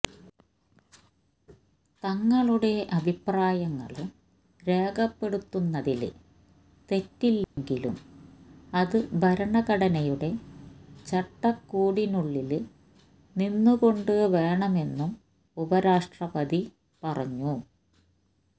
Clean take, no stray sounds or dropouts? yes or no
no